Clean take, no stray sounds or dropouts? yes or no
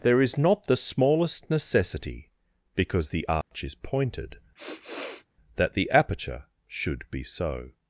no